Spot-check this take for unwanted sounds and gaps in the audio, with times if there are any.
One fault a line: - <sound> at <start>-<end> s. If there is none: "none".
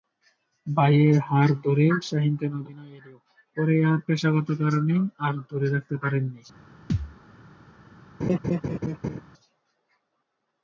- thud at 6.9-7.2 s
- laugh at 8.2-9.2 s